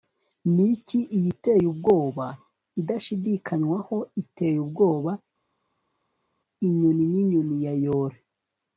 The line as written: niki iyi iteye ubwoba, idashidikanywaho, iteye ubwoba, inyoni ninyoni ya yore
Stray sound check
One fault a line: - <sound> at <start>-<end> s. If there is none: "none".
none